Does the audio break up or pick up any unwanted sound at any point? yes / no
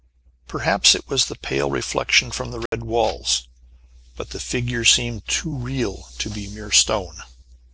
yes